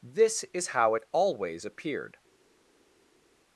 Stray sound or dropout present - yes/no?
no